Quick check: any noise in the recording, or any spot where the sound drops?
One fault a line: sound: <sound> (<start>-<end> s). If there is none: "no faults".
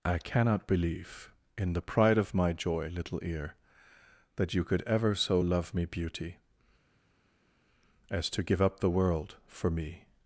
no faults